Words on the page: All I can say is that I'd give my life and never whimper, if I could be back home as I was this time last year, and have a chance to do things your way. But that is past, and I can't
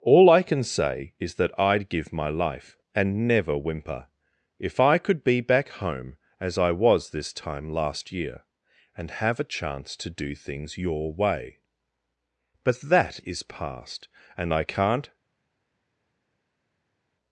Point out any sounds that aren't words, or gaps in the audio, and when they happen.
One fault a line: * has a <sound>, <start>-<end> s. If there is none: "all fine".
all fine